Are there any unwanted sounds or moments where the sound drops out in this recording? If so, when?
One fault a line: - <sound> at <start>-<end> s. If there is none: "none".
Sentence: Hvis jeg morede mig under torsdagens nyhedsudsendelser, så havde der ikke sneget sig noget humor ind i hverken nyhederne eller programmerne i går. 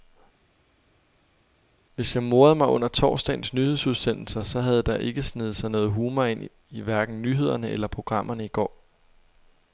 none